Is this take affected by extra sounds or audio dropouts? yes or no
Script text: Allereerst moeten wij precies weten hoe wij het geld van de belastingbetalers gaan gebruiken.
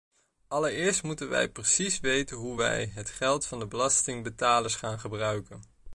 no